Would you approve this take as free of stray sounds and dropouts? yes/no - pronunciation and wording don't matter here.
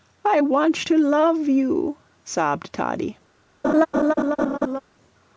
no